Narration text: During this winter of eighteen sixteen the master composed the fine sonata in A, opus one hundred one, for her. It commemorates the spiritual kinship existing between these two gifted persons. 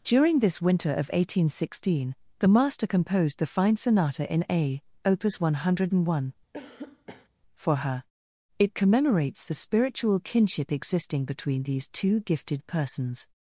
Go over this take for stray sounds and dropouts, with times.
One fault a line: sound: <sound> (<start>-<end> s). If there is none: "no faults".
sound: cough (6.5-7.3 s)